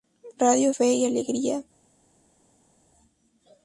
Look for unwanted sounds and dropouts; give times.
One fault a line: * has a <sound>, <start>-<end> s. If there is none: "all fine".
all fine